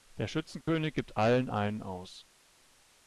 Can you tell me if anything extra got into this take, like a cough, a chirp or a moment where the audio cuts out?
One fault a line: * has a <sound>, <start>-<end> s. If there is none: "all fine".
* has a dropout, 0.6-0.7 s